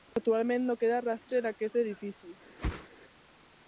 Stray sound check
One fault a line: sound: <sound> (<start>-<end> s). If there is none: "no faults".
sound: whoosh (2.6-2.9 s)